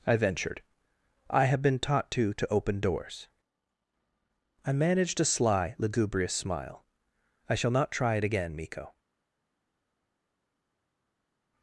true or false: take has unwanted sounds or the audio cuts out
false